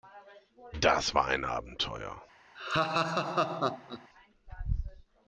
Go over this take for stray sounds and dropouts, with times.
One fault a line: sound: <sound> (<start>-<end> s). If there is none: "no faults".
sound: laugh (2.5-4.1 s)